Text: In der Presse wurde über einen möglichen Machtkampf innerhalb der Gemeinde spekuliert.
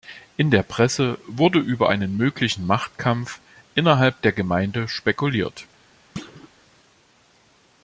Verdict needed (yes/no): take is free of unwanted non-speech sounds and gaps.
no